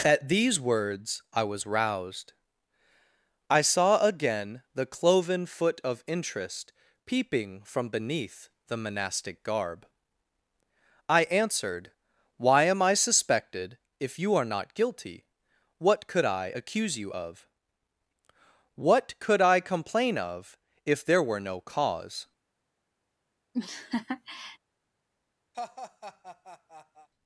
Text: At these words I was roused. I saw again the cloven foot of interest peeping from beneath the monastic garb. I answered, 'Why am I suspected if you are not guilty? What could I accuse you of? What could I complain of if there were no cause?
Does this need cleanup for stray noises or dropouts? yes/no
yes